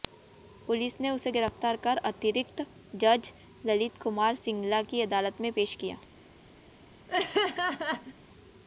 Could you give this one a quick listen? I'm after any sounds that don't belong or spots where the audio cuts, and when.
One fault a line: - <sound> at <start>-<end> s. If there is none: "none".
- laugh at 7.1-8.1 s